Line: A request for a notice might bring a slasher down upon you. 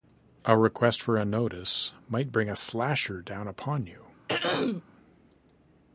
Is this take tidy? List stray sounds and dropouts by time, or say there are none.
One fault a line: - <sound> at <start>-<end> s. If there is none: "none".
- throat clearing at 4.3-4.8 s